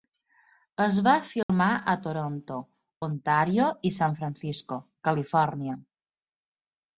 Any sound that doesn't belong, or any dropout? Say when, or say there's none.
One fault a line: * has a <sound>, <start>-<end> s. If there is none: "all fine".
* has a dropout, 1.4-1.5 s